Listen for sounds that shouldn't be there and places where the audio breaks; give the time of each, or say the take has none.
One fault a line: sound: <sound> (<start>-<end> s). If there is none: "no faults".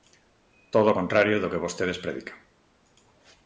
no faults